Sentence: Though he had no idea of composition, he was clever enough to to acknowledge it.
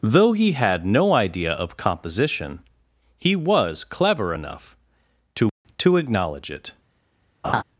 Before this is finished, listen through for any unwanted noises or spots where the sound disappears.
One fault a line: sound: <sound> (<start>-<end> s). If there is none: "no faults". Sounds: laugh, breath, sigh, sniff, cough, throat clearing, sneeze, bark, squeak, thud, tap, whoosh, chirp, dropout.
sound: laugh (7.4-7.6 s)